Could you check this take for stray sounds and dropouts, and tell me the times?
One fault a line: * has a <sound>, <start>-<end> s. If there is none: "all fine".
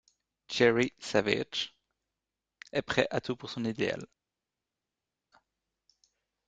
all fine